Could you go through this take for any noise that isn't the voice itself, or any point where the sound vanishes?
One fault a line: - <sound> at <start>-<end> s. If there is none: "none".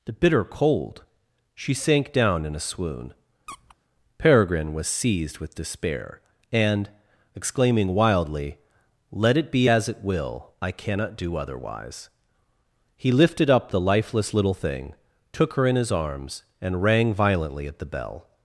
- squeak at 3.5-3.8 s